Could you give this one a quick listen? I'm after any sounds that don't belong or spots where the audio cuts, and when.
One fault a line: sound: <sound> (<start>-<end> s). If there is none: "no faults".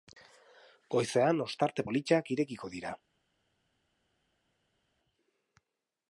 no faults